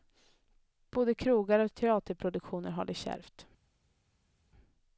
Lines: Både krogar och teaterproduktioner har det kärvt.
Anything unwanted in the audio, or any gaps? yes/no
no